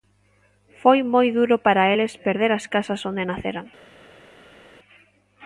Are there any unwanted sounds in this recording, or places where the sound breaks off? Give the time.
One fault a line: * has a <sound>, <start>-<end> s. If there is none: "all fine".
all fine